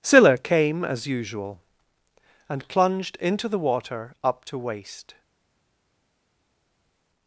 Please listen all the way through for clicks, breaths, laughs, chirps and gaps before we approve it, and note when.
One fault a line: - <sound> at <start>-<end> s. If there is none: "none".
none